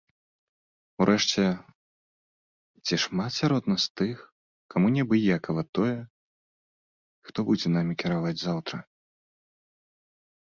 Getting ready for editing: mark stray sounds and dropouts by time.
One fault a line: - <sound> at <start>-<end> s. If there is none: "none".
none